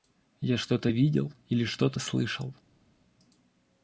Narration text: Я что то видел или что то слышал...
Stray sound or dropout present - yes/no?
no